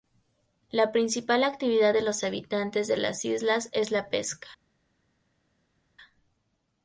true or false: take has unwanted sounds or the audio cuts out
false